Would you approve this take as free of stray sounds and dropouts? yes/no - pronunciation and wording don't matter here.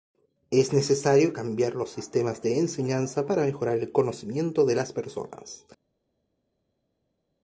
yes